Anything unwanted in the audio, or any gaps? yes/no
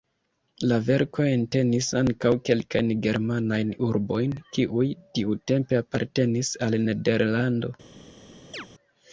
yes